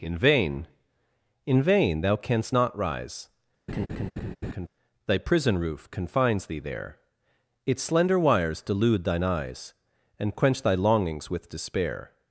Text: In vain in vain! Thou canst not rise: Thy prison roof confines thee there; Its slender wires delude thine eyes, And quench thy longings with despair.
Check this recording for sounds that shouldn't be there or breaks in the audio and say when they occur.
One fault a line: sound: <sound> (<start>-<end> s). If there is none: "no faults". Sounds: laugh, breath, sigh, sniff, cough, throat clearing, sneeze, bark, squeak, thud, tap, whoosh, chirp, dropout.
sound: laugh (3.7-4.7 s)